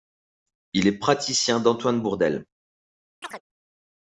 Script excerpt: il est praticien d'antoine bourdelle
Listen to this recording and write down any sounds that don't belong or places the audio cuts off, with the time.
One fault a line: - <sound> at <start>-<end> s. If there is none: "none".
- chirp at 3.2-3.4 s